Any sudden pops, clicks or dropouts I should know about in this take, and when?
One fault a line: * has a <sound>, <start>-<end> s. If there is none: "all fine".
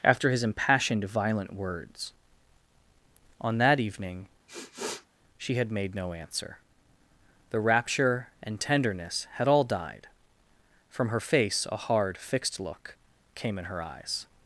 * has a sniff, 4.5-5.1 s